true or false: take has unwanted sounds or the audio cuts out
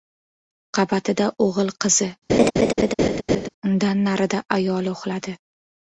true